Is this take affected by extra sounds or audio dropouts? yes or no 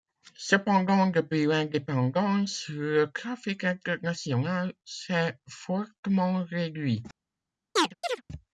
yes